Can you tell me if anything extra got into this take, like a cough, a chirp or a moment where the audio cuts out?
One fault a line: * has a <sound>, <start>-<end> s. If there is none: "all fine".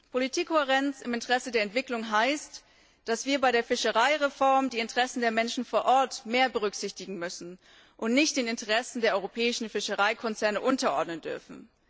all fine